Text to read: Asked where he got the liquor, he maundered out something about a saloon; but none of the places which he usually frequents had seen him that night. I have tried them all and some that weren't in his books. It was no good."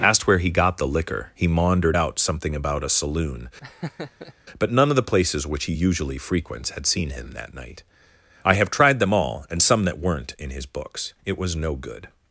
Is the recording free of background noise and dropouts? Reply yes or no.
no